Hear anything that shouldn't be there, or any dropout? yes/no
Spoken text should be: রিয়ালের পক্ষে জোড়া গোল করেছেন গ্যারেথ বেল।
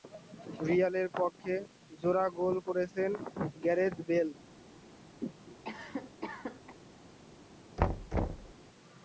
yes